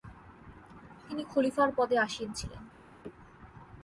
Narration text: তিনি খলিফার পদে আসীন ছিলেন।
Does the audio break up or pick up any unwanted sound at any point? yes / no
no